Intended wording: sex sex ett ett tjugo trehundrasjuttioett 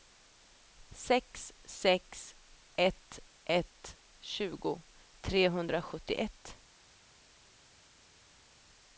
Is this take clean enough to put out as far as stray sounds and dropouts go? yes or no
yes